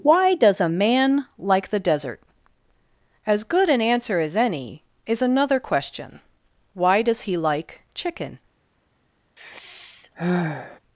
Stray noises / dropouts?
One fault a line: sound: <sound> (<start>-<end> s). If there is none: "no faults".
sound: sigh (9.4-10.8 s)